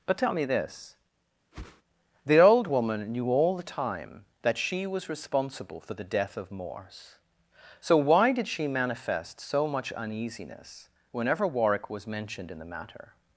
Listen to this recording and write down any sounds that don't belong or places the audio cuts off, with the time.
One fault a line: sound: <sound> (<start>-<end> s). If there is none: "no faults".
sound: whoosh (1.5-1.8 s)